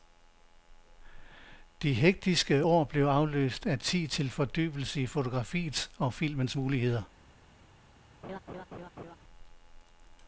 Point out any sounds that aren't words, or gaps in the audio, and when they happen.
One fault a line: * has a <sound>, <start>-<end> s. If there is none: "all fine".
* has a laugh, 8.2-9.2 s